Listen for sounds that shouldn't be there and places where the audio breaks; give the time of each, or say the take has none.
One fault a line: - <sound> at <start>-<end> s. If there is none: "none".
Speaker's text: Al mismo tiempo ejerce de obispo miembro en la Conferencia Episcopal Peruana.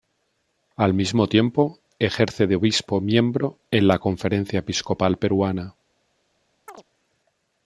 - chirp at 6.7-6.8 s